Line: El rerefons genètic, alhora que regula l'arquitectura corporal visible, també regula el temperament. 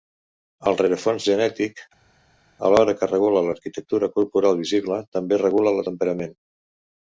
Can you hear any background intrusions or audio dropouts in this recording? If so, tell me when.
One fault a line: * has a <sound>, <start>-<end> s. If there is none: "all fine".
all fine